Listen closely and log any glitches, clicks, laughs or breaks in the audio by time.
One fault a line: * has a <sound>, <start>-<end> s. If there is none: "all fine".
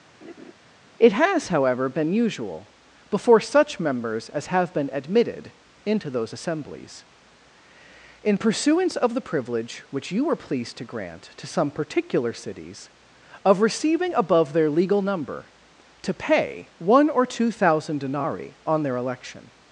* has a laugh, 0.2-0.5 s